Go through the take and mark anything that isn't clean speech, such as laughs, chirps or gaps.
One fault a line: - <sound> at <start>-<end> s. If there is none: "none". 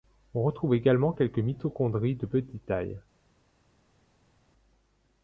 none